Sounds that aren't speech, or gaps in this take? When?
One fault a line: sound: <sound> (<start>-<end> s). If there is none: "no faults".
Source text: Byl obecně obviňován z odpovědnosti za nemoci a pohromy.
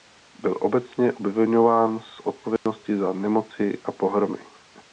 sound: dropout (2.6-2.7 s)